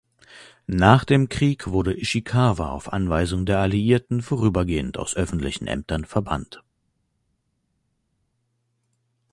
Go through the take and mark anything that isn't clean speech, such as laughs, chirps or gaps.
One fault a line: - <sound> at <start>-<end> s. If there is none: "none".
none